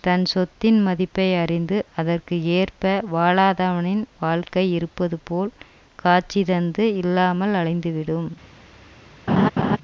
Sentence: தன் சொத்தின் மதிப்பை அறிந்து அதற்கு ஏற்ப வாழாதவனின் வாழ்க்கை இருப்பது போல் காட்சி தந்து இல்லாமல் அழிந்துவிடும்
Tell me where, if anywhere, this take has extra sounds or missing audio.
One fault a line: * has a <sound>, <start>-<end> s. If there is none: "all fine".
* has a laugh, 9.3-9.8 s